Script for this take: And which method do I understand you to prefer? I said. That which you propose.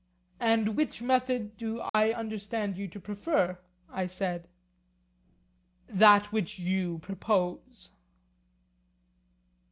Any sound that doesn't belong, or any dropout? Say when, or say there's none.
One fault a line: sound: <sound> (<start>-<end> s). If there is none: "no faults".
sound: dropout (1.9-1.9 s)